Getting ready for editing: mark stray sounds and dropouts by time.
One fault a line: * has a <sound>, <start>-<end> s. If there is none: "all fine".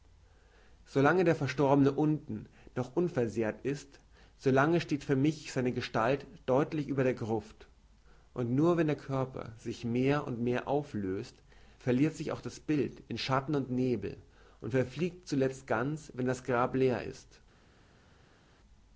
all fine